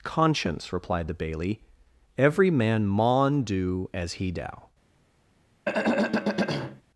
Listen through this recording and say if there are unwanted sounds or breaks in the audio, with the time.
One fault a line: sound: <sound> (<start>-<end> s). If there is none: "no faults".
sound: throat clearing (5.6-6.8 s)